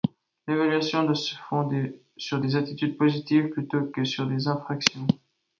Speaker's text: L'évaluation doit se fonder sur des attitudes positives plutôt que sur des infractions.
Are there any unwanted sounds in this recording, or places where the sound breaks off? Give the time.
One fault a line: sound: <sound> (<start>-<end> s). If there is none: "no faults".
no faults